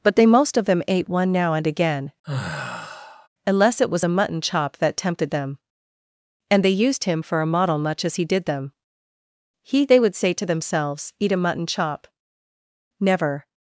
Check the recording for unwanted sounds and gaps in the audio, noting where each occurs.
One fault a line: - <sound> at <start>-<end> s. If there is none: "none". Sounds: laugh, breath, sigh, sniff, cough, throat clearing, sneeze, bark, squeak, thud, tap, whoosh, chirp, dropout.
- sigh at 2.2-3.3 s